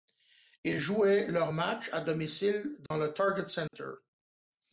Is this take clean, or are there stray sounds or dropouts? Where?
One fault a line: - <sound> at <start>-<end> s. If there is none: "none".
- dropout at 2.9-2.9 s
- dropout at 3.7-3.7 s